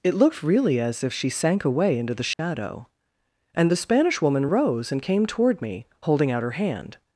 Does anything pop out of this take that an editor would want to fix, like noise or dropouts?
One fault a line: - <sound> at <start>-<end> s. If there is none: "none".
- dropout at 2.3-2.4 s